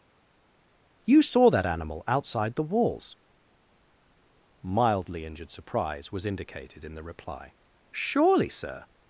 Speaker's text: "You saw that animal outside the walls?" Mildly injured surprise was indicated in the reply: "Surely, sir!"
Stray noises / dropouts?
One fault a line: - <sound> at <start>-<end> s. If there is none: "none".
none